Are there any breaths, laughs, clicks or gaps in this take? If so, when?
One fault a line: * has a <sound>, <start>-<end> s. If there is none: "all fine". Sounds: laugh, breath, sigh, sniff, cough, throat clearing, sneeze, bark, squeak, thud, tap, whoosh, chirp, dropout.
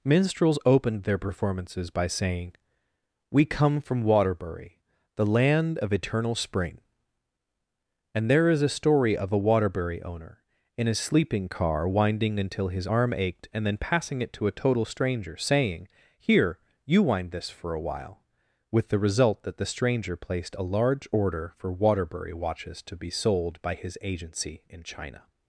all fine